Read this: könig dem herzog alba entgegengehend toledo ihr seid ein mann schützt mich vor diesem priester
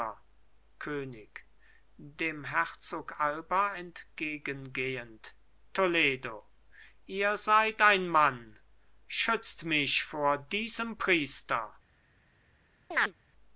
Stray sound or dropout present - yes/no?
yes